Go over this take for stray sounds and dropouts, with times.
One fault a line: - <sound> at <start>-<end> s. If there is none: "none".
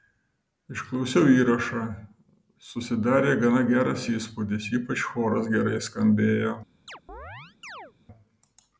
- chirp at 6.9-7.9 s